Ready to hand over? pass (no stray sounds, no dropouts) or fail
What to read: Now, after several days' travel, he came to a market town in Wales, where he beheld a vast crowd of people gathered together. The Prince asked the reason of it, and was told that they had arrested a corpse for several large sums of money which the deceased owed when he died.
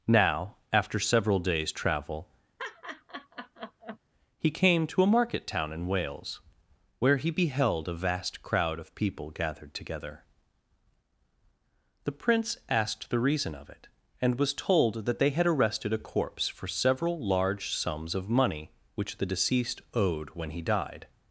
fail